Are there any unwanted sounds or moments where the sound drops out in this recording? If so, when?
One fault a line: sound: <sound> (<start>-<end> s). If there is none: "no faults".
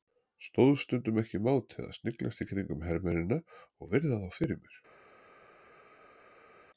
no faults